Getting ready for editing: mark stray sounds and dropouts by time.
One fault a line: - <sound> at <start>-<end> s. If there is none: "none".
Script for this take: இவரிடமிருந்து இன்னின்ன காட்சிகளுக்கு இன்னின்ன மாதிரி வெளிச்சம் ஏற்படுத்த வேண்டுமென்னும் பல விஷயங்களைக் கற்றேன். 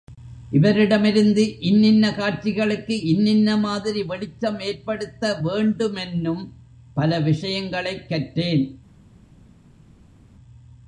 none